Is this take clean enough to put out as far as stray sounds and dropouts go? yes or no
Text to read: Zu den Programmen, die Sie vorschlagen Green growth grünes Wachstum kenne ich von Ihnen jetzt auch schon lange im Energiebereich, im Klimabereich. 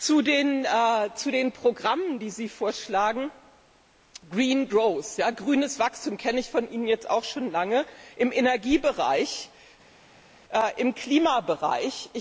yes